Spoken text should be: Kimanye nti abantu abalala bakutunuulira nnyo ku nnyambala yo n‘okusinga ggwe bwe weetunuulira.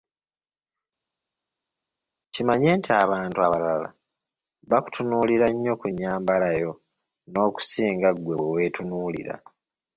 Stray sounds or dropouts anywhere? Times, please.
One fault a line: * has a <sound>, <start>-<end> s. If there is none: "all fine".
all fine